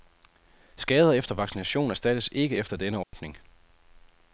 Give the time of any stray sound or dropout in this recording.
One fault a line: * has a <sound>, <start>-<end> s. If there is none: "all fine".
* has a dropout, 3.0-3.1 s